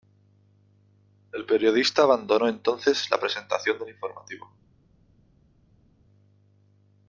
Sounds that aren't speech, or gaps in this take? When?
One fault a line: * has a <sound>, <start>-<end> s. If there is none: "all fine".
all fine